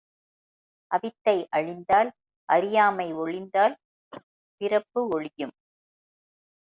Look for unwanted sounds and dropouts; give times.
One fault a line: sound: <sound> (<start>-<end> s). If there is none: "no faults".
sound: cough (4.1-4.2 s)